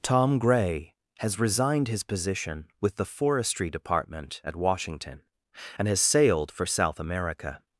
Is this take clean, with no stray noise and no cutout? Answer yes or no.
yes